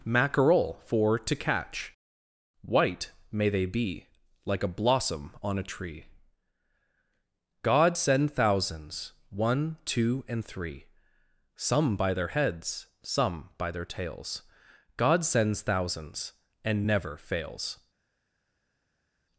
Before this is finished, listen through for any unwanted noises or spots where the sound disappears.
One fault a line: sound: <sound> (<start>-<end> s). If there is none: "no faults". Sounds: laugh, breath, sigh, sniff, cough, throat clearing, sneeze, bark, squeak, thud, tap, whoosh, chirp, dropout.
no faults